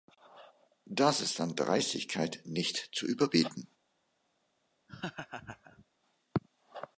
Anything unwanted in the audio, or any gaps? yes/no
yes